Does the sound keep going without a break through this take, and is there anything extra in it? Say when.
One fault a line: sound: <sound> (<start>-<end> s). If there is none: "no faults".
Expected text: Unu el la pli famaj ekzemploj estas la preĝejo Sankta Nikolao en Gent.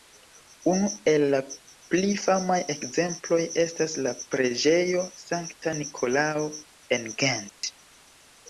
sound: dropout (7.5-7.6 s)